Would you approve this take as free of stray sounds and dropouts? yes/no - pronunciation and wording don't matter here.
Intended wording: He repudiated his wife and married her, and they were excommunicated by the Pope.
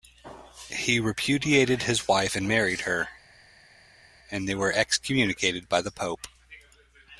yes